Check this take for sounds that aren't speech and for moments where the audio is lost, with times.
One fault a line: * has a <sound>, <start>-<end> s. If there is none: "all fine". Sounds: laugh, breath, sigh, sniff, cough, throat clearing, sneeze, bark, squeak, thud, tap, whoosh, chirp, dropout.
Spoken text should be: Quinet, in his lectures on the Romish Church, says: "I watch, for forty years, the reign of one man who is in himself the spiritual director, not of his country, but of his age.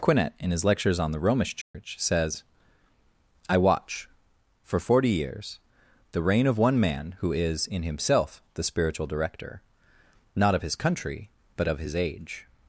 * has a dropout, 1.6-1.7 s